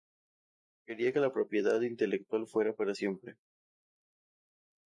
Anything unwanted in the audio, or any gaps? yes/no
no